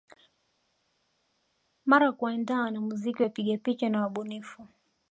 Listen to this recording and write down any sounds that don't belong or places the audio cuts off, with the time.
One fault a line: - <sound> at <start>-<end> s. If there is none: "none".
none